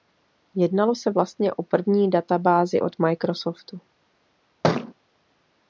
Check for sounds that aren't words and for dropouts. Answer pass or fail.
fail